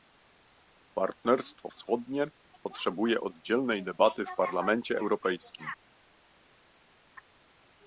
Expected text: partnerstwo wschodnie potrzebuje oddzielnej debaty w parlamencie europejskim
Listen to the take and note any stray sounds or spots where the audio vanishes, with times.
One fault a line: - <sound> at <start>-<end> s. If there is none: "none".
none